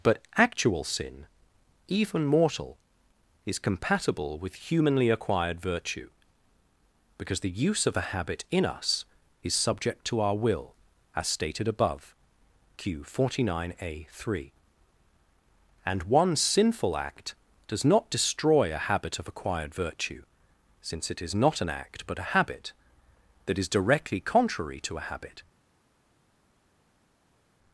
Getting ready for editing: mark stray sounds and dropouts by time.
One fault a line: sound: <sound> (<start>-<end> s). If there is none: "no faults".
no faults